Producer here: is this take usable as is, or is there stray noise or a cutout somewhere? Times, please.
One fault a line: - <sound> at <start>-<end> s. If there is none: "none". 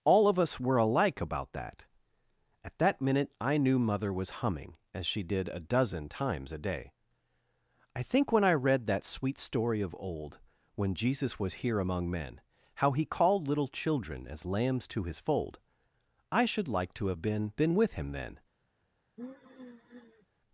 - sigh at 19.2-20.3 s